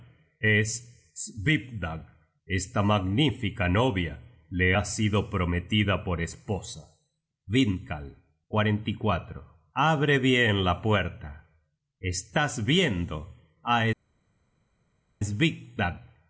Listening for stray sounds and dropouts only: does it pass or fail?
pass